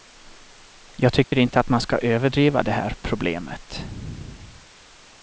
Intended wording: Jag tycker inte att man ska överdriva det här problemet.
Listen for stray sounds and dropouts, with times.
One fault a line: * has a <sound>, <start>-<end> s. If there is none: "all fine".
* has a dropout, 1.2-1.3 s